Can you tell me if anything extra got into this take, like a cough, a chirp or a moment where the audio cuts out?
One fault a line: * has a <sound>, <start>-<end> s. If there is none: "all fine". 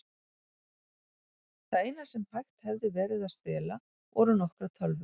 all fine